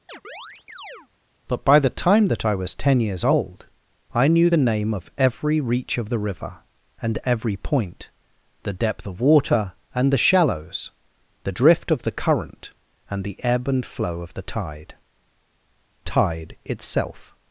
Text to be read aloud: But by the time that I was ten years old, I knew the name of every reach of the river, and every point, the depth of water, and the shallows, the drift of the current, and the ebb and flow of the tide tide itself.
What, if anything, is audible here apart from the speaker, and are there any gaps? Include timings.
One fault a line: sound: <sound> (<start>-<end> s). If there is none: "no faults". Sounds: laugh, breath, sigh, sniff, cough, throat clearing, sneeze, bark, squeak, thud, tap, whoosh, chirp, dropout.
sound: chirp (0.1-1.1 s)